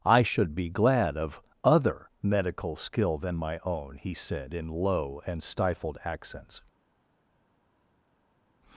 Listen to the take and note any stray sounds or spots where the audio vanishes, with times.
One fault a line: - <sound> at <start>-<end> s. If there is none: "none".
none